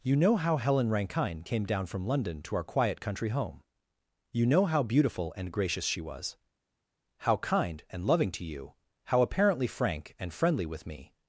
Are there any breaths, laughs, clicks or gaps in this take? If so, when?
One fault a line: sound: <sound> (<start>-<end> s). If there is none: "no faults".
no faults